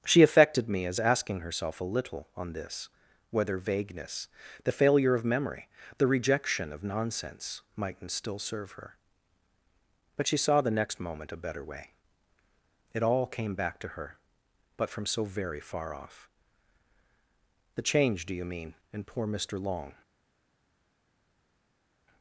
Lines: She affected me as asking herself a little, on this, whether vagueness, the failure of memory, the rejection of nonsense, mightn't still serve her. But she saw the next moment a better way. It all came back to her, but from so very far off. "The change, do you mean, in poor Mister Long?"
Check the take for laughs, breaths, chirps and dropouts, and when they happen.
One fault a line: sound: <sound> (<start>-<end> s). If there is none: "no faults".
no faults